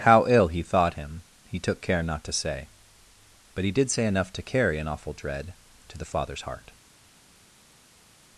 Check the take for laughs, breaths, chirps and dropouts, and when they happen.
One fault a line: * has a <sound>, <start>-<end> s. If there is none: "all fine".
all fine